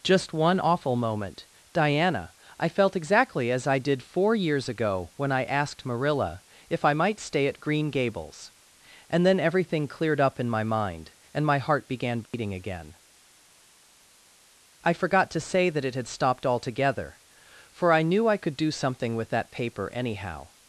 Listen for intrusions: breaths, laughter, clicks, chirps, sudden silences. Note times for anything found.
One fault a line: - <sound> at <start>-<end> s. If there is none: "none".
- dropout at 12.3-12.3 s